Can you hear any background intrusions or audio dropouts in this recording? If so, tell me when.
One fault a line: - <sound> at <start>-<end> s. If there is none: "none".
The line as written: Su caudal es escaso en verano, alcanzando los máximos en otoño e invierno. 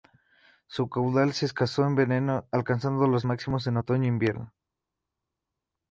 none